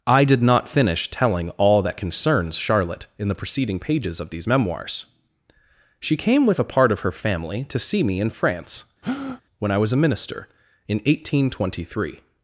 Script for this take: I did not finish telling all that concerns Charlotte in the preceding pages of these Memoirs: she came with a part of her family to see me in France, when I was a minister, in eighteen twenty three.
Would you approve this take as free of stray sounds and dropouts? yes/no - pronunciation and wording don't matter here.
no